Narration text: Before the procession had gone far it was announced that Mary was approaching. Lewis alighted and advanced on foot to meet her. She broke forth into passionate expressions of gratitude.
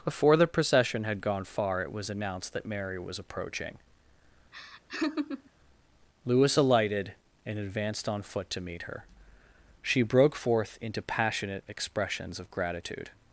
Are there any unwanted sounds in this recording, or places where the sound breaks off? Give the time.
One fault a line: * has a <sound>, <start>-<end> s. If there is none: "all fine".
* has a laugh, 4.5-5.5 s